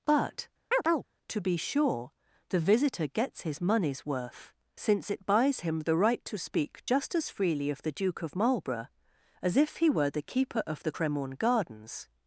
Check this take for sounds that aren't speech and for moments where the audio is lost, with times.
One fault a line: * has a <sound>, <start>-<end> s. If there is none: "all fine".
* has a chirp, 0.7-1.1 s